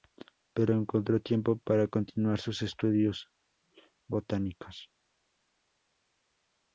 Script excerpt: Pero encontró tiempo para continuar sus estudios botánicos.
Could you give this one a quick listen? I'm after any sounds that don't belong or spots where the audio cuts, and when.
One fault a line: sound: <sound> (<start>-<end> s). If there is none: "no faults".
no faults